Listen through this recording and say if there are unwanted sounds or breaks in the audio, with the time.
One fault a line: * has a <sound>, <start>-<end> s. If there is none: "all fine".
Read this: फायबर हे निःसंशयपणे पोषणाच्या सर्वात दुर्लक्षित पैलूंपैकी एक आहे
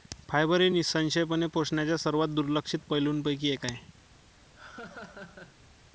* has a laugh, 4.5-5.7 s